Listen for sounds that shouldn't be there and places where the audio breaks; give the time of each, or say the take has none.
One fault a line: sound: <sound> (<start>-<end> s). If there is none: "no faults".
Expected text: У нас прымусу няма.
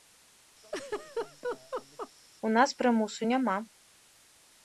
sound: laugh (0.6-2.1 s)